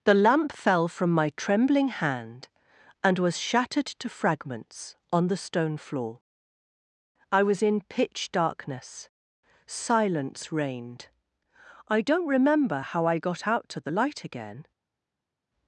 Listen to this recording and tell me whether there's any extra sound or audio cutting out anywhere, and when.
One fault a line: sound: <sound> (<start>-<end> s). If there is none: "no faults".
no faults